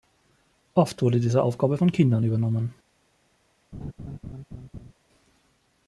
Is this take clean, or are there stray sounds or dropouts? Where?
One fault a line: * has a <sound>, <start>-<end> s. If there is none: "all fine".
* has a laugh, 3.7-4.9 s